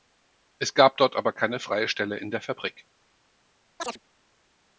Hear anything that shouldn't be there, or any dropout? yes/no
yes